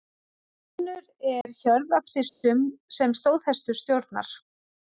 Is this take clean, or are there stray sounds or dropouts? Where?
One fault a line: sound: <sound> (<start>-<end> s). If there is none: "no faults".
sound: dropout (1.4-1.5 s)
sound: dropout (2.3-2.4 s)